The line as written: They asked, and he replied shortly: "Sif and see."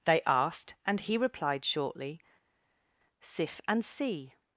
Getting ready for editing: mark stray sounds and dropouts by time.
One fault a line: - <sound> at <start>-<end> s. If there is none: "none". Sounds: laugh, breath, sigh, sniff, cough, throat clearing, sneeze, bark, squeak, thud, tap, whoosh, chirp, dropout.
none